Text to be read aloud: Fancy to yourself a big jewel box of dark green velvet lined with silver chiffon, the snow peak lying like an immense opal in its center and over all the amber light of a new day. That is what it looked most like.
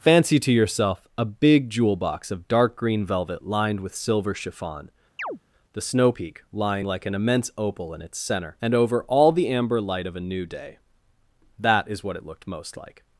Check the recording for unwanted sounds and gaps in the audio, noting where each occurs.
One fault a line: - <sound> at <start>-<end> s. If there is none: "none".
- chirp at 5.2-5.4 s